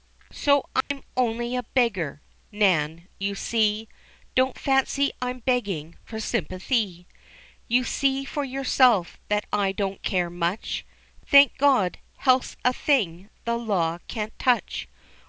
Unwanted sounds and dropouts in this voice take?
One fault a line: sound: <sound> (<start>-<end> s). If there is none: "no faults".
sound: dropout (0.8-0.9 s)